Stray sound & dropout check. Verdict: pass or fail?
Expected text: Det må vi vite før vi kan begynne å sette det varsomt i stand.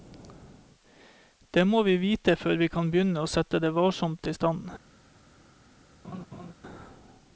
fail